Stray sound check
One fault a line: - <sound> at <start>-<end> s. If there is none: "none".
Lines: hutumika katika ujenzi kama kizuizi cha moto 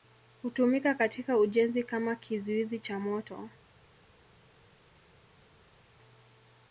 none